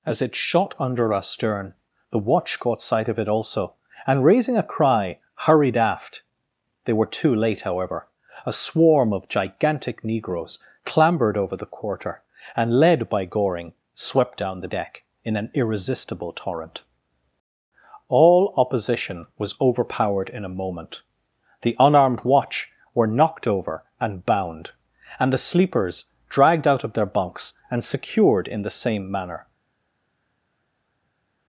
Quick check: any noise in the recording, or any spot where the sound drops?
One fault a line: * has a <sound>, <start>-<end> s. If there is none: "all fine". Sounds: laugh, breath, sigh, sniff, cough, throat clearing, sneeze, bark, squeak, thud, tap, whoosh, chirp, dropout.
all fine